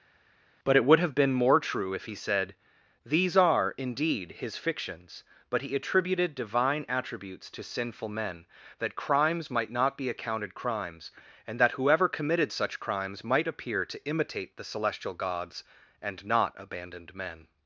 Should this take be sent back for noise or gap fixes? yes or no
no